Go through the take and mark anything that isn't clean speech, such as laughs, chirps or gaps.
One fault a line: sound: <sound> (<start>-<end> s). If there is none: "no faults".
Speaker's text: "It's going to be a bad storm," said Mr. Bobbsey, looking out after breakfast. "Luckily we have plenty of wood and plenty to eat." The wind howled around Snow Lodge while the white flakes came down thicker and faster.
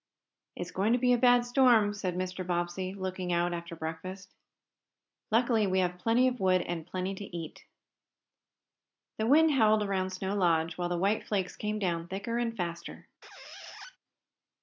sound: squeak (13.2-14.0 s)